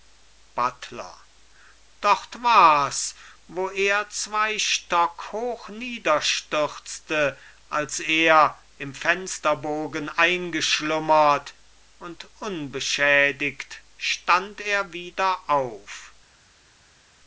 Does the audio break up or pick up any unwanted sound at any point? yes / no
no